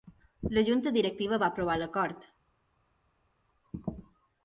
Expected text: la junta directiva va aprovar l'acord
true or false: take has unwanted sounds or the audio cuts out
false